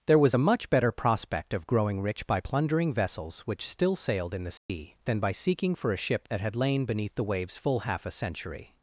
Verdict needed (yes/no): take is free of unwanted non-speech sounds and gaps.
no